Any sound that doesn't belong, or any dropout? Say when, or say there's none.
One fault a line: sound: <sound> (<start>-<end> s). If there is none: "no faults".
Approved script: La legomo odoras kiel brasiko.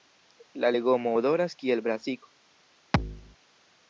sound: thud (2.9-3.4 s)